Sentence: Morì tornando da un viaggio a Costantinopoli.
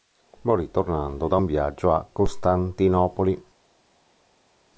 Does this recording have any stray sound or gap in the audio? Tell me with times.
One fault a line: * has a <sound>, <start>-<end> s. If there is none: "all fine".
all fine